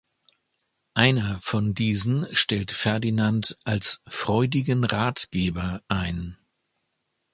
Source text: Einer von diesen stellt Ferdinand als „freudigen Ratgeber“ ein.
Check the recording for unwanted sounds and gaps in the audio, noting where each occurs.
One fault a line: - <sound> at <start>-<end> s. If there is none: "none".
none